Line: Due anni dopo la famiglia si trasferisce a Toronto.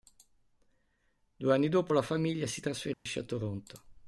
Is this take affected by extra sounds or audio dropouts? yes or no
yes